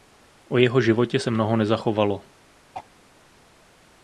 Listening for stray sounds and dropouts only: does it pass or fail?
fail